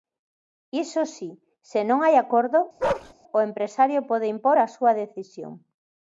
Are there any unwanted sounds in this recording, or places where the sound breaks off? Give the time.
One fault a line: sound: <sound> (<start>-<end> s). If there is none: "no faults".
sound: bark (2.8-3.1 s)